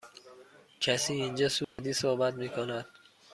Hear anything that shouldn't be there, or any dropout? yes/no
yes